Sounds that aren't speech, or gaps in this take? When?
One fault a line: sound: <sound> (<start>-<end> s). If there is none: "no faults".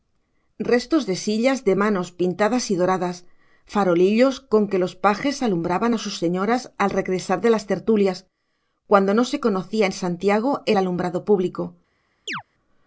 sound: chirp (12.3-12.4 s)